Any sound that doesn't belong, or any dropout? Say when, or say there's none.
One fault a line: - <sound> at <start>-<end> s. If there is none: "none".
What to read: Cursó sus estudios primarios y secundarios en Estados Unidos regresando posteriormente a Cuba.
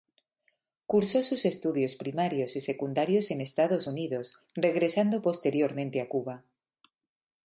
none